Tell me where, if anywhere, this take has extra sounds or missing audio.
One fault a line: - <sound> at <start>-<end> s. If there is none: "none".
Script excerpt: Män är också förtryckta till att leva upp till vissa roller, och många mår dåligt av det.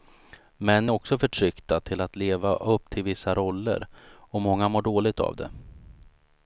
none